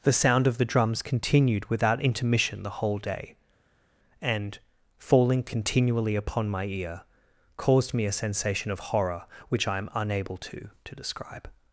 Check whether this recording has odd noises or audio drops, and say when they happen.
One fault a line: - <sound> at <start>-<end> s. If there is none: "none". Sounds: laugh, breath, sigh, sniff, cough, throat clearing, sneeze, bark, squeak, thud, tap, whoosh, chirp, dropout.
none